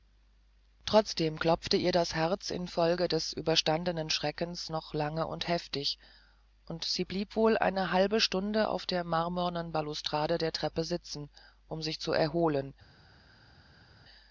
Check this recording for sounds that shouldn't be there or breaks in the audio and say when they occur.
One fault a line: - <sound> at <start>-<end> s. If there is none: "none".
none